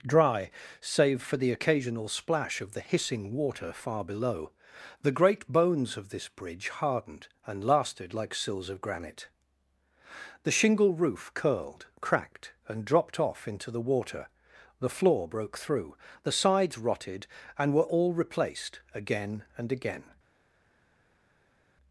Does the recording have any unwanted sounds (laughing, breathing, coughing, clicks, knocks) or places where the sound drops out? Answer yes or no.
no